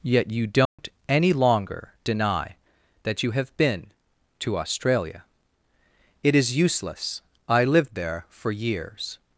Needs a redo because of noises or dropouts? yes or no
yes